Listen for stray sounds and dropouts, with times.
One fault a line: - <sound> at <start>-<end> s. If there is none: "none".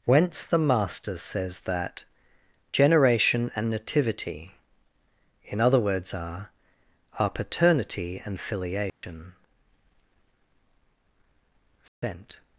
- dropout at 8.9-9.0 s
- dropout at 11.9-12.0 s